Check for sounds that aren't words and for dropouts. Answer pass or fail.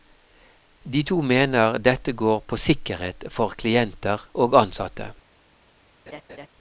fail